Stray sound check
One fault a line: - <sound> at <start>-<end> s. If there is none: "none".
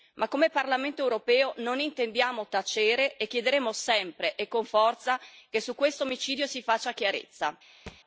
- thud at 7.9-8.0 s